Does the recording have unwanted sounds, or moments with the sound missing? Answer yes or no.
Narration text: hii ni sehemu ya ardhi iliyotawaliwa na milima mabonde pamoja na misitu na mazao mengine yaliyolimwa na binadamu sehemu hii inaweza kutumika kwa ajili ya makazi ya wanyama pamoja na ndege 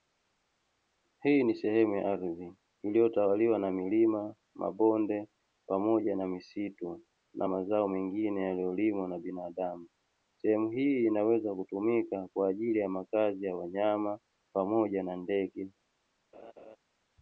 yes